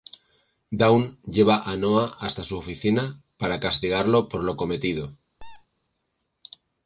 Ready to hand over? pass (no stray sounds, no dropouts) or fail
fail